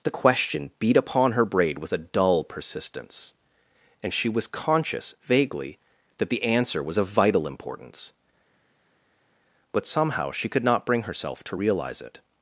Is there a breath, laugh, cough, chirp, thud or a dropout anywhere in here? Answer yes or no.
no